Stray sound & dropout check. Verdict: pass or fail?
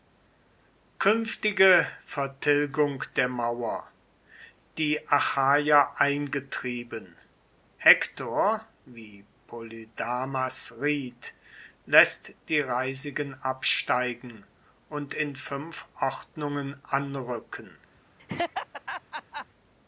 fail